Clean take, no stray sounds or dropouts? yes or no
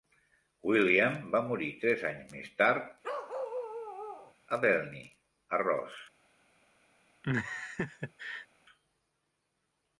no